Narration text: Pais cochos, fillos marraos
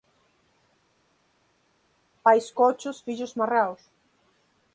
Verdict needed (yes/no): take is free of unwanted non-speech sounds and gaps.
yes